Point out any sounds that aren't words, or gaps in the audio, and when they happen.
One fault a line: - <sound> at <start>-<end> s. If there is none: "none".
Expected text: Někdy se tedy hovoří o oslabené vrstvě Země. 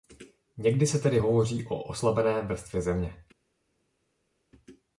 none